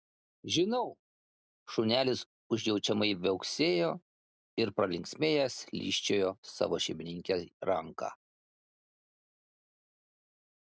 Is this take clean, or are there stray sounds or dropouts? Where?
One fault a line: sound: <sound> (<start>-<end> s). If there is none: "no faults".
no faults